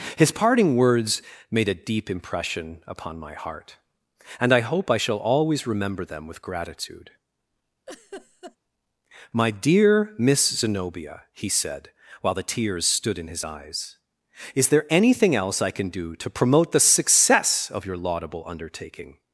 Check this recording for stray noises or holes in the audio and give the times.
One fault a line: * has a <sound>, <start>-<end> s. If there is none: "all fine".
* has a laugh, 7.9-8.6 s